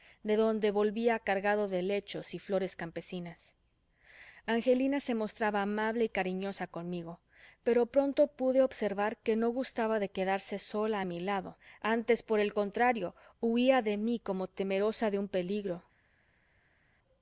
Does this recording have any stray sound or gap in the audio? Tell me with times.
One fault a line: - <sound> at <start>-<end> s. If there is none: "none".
none